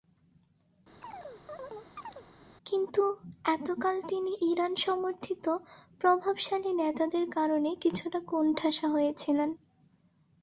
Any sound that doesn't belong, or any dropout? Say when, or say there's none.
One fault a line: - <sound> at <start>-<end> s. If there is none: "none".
- chirp at 1.0-2.3 s